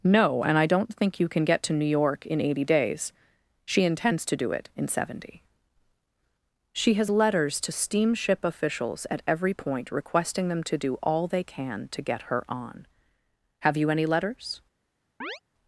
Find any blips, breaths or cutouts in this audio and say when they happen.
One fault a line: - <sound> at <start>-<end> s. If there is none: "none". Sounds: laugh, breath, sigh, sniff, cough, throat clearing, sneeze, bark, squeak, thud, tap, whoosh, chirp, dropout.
- chirp at 15.2-15.4 s